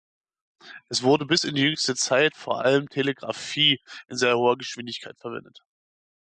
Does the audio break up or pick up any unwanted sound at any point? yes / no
no